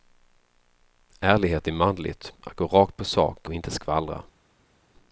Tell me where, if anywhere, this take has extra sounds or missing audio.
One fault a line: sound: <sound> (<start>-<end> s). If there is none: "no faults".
no faults